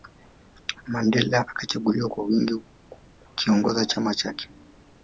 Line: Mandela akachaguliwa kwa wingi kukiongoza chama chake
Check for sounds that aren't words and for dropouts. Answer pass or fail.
pass